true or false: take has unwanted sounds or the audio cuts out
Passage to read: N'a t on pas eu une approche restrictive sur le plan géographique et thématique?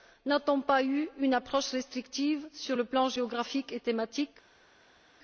false